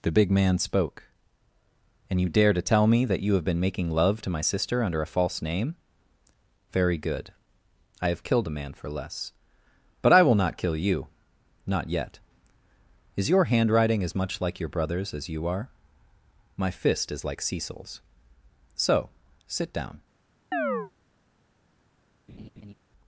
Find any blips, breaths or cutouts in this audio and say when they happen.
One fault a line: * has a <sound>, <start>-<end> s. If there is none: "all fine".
* has a chirp, 20.5-20.9 s
* has a laugh, 22.3-22.7 s